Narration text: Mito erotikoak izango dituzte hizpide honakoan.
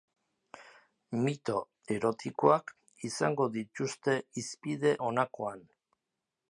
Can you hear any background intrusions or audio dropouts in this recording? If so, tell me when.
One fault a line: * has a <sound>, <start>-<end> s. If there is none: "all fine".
all fine